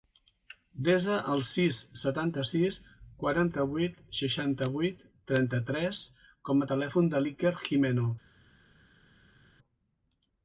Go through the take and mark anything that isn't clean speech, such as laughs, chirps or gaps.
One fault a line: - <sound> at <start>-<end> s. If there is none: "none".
none